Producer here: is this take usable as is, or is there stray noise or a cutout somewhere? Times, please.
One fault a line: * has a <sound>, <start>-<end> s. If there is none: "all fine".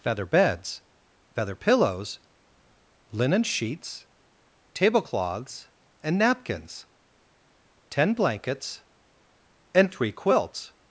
all fine